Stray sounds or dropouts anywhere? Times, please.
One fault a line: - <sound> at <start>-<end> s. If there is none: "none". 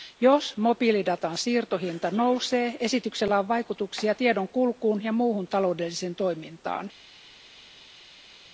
none